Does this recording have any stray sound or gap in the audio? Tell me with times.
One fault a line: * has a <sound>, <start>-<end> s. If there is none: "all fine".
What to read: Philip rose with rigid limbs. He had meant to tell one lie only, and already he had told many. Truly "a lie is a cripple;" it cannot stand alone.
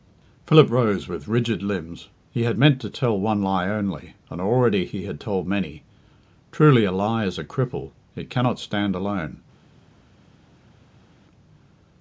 all fine